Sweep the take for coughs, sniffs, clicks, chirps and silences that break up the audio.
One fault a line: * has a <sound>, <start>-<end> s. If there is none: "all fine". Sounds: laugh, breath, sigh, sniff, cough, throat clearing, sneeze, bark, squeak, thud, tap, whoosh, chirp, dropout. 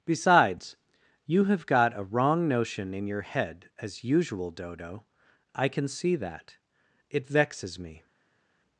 all fine